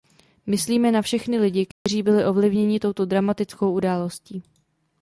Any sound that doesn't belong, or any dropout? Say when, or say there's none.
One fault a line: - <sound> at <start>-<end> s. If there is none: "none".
- dropout at 1.7-1.9 s